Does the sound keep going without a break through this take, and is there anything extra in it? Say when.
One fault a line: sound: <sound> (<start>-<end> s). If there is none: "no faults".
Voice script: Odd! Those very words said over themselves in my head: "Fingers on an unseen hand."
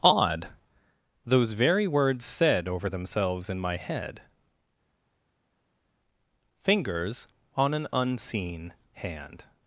no faults